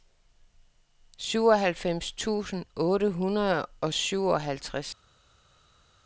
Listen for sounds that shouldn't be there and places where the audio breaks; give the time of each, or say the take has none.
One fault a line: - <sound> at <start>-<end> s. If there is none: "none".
none